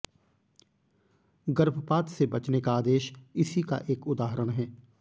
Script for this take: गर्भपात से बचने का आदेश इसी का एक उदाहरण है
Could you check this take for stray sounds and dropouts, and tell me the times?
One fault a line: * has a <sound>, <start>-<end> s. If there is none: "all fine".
all fine